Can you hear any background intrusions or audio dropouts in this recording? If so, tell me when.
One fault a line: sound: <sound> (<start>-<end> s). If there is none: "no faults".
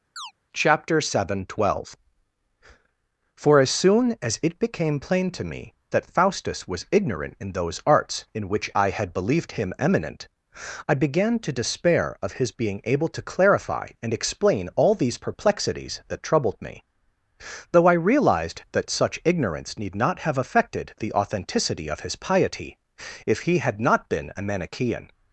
sound: chirp (0.2-0.3 s)